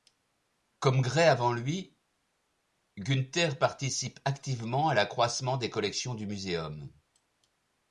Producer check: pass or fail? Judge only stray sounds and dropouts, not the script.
pass